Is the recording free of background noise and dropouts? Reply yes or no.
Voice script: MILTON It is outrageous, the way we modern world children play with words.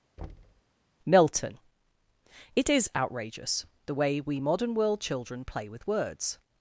no